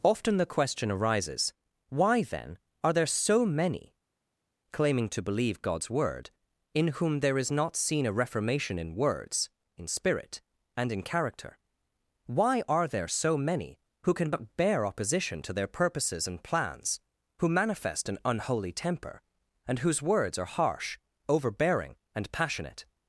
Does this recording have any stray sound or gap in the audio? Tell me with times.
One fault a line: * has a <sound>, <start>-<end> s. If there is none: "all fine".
all fine